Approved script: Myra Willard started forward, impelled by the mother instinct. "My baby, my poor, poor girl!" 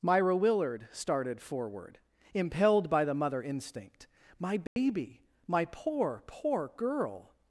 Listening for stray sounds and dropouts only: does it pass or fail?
fail